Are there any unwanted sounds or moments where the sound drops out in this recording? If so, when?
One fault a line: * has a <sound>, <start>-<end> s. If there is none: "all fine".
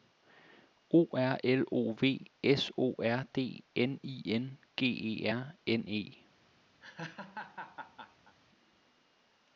* has a laugh, 6.8-8.4 s